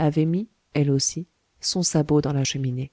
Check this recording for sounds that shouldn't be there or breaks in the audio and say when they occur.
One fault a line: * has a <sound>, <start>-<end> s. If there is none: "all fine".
all fine